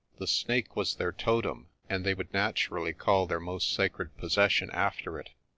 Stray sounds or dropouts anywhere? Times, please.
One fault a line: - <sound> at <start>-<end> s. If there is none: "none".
none